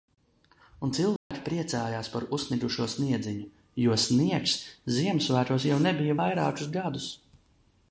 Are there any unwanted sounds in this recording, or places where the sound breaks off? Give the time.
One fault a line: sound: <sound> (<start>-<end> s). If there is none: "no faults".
sound: dropout (1.2-1.3 s)